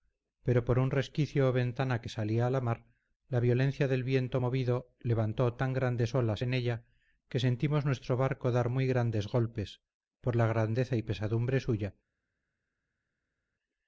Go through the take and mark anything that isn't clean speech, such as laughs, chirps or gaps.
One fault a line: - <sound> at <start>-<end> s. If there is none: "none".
none